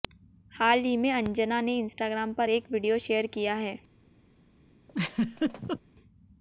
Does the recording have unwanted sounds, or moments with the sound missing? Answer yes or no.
yes